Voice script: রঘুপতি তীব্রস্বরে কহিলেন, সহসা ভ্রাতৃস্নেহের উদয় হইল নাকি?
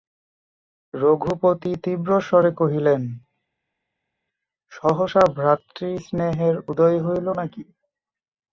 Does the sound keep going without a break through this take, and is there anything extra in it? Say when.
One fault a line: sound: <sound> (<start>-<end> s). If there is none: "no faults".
no faults